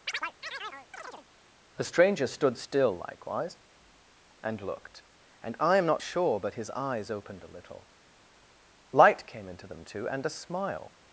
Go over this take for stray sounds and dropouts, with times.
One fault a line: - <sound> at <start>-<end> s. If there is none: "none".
- chirp at 0.1-1.3 s